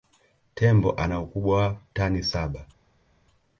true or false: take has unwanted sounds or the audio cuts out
false